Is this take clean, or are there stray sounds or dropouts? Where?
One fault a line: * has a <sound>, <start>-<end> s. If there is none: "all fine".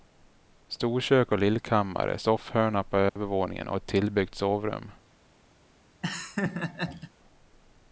* has a dropout, 3.1-3.2 s
* has a laugh, 6.0-7.1 s